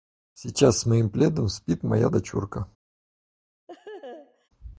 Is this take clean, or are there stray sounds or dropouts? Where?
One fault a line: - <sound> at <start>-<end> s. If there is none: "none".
- laugh at 3.7-4.5 s